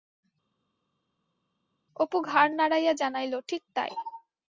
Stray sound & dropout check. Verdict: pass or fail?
pass